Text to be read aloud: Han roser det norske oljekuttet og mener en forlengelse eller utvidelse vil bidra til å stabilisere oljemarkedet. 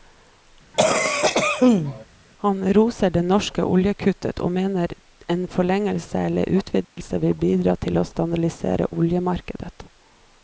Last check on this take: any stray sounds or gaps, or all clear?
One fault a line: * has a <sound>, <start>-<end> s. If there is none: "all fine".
* has a cough, 0.7-2.1 s
* has a dropout, 6.8-7.0 s